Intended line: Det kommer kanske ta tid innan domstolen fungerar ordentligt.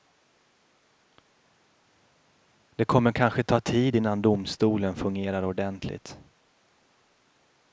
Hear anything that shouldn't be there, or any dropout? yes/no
no